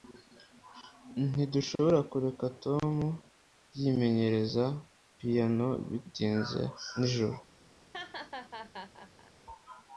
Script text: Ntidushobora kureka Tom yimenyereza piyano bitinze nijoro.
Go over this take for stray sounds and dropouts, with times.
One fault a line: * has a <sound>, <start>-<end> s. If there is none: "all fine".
* has a laugh, 7.9-9.3 s